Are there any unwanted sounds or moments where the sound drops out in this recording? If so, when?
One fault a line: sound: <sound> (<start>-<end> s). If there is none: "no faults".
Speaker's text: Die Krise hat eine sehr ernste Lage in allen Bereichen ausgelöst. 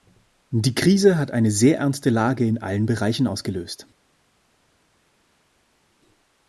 no faults